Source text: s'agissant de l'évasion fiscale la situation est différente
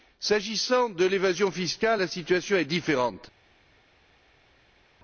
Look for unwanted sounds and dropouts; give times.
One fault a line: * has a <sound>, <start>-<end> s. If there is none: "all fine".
all fine